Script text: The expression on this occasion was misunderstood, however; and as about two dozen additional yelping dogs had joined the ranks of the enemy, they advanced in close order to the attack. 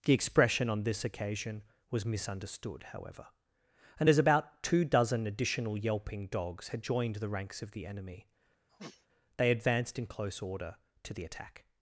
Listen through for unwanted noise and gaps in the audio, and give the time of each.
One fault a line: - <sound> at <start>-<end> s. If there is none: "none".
- sniff at 8.7-9.1 s